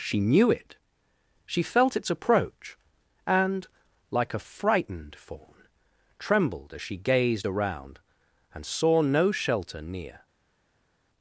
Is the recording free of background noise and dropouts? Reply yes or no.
yes